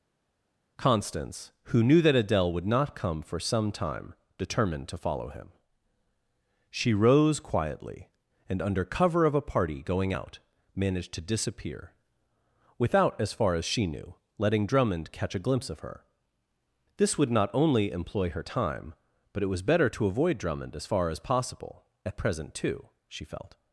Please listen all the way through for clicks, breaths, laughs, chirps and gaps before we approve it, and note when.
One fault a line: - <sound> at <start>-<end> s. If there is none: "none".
none